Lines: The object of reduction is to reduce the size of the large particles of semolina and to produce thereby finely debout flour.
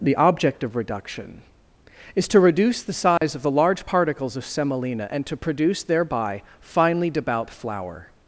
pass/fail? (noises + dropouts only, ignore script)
fail